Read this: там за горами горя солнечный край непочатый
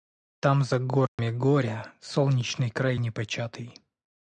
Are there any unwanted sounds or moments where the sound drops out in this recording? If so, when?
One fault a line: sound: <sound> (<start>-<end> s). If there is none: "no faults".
sound: dropout (1.1-1.2 s)